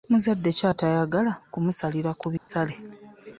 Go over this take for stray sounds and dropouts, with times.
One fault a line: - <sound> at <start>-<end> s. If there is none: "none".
- dropout at 2.4-2.5 s